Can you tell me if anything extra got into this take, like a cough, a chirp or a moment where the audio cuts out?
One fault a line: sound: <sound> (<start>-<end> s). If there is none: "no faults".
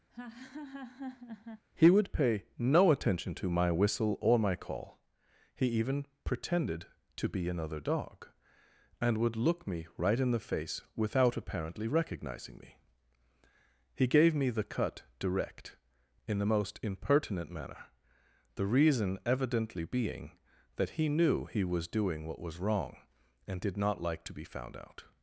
sound: laugh (0.1-1.6 s)